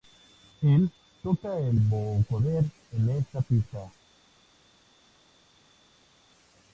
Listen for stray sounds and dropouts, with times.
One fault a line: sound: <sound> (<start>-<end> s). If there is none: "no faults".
no faults